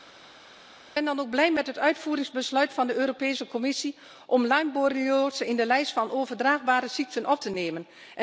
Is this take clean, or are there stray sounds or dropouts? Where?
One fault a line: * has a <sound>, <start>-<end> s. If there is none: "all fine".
all fine